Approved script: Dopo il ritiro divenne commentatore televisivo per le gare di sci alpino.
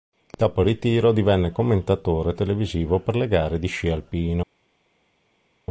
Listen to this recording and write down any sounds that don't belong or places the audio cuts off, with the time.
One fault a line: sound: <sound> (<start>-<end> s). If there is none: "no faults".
no faults